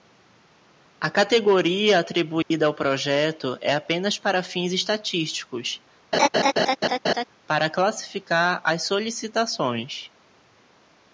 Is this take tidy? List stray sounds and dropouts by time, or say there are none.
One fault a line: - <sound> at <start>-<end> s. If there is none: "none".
- dropout at 2.4-2.5 s
- laugh at 6.1-7.3 s